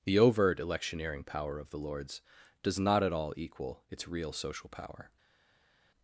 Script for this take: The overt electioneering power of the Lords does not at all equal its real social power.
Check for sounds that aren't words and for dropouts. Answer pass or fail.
pass